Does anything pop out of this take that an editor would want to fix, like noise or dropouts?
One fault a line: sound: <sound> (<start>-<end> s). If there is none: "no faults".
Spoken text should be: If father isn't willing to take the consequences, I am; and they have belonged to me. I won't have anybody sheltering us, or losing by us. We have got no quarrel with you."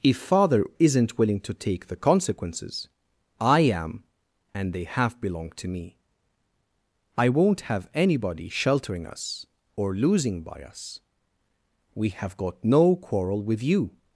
no faults